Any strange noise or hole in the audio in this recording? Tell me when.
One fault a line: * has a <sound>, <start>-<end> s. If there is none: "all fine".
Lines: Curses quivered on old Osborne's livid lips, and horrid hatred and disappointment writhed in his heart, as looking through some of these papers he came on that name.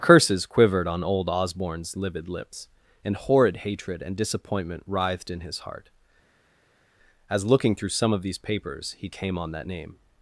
all fine